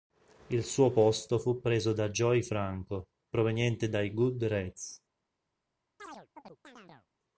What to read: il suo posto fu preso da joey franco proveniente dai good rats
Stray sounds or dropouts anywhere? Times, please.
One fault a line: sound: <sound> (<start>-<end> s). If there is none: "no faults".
sound: chirp (6.0-7.1 s)